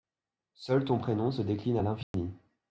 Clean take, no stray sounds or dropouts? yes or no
no